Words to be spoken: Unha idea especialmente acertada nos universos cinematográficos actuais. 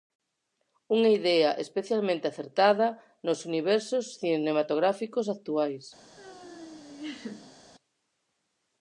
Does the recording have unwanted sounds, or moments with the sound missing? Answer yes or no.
yes